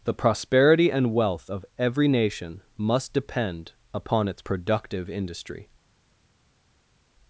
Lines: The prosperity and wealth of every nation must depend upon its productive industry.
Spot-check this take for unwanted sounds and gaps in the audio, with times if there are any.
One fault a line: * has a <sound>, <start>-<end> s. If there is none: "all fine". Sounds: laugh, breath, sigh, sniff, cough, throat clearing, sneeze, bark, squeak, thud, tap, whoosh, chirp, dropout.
all fine